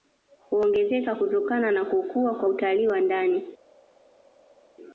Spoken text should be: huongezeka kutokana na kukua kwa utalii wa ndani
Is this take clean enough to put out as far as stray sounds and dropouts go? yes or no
yes